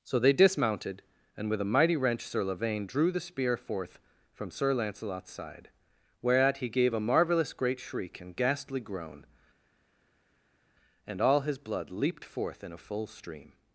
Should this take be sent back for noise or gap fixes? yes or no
no